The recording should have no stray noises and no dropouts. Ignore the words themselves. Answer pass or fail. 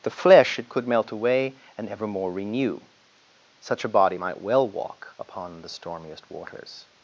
pass